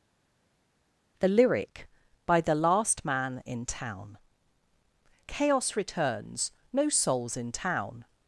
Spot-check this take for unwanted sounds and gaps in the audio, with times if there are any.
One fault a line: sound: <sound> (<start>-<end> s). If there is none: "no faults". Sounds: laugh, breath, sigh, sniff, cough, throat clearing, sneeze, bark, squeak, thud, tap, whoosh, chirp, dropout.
no faults